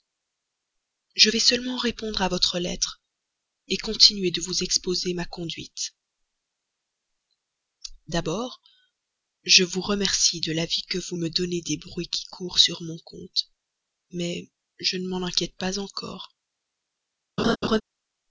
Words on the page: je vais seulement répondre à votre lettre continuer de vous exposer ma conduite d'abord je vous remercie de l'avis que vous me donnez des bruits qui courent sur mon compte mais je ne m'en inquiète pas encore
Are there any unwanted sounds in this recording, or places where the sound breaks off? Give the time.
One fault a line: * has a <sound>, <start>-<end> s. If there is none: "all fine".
* has a laugh, 17.4-17.8 s